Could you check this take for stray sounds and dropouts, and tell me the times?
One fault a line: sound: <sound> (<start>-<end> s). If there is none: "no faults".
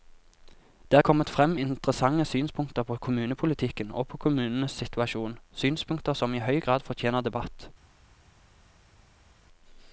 no faults